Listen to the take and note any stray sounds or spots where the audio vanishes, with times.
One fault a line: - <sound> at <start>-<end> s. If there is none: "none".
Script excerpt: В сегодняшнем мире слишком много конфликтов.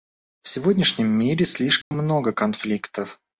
- dropout at 1.8-1.9 s